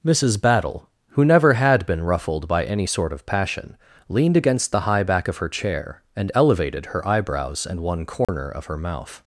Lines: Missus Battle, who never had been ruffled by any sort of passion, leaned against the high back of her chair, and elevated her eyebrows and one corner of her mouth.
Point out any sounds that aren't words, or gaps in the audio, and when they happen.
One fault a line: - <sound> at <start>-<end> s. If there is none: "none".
- dropout at 8.2-8.3 s